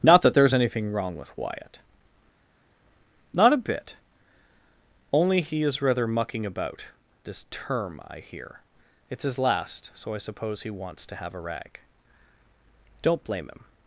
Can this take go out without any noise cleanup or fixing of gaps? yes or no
yes